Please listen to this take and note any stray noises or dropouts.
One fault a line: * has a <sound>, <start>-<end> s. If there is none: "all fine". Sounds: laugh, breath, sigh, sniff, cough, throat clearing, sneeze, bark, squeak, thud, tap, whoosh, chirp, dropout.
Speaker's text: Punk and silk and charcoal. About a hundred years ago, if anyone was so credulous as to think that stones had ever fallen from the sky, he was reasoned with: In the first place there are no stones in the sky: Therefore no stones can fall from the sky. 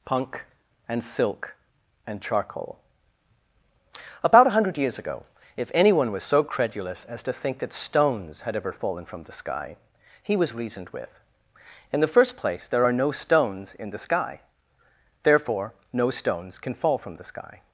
all fine